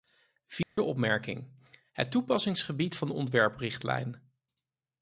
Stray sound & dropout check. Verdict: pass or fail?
fail